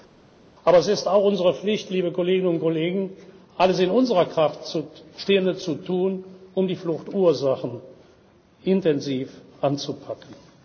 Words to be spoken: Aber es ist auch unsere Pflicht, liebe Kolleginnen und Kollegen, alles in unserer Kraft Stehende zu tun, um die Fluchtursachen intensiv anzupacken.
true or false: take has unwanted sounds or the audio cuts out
false